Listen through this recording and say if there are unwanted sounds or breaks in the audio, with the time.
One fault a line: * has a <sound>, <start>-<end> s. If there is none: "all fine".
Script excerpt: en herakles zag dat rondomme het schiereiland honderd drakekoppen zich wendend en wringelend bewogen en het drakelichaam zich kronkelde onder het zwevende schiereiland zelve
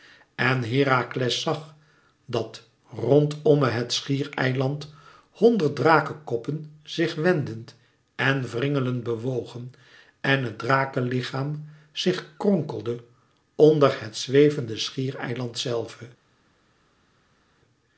all fine